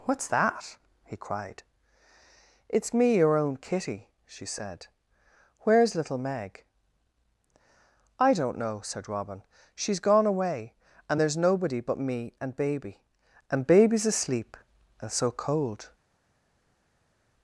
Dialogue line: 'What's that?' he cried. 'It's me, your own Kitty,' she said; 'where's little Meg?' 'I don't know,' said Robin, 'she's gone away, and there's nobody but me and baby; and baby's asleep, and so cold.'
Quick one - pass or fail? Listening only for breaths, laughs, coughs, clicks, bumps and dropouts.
pass